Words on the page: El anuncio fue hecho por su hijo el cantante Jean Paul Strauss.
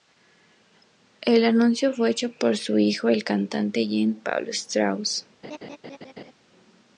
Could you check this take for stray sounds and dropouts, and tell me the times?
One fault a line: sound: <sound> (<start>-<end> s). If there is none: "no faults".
sound: laugh (5.4-6.3 s)